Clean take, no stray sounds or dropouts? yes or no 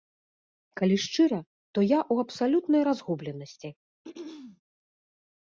no